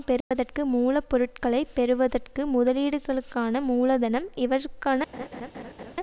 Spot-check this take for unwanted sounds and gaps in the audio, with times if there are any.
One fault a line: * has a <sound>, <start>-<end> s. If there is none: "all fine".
* has a dropout, 0.2-0.3 s
* has a laugh, 5.1-5.9 s